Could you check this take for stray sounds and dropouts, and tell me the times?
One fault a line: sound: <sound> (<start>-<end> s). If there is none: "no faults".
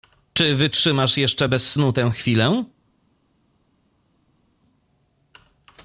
no faults